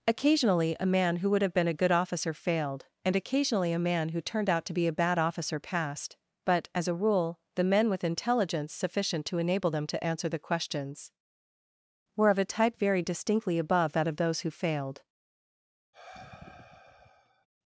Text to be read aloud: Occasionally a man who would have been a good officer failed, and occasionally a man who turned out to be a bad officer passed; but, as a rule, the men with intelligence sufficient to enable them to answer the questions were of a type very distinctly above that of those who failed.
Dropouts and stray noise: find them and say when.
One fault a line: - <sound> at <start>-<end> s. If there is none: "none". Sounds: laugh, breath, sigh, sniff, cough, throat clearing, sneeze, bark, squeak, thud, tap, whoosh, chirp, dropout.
- sigh at 15.9-17.5 s